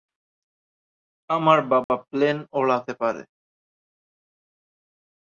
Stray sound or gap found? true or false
true